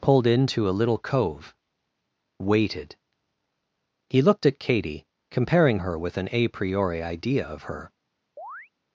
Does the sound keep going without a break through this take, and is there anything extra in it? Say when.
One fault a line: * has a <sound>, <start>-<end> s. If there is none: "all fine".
* has a chirp, 8.4-8.7 s